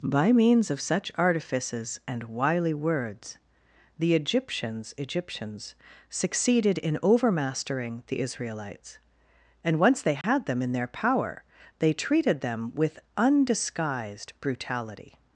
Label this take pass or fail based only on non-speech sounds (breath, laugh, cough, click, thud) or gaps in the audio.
fail